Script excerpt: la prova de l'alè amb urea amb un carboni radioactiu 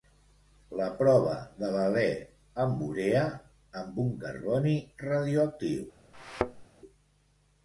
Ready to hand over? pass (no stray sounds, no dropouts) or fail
fail